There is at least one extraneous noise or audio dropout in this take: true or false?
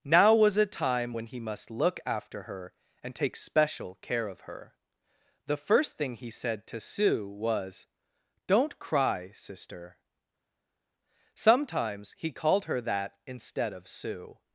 false